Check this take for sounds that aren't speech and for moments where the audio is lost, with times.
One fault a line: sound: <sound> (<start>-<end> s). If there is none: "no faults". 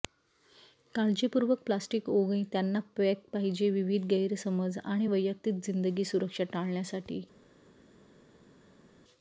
no faults